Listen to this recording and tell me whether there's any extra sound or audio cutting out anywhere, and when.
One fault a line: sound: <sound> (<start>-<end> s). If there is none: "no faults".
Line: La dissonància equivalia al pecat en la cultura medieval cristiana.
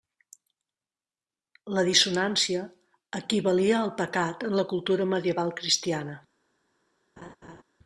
sound: laugh (7.2-7.6 s)